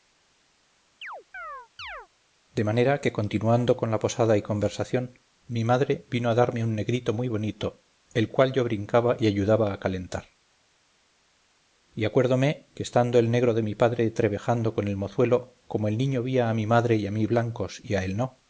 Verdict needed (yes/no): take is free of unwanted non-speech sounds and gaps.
no